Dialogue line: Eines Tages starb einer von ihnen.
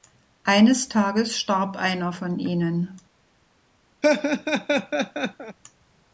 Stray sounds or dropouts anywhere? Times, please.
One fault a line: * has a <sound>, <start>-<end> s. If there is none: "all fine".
* has a laugh, 4.0-5.6 s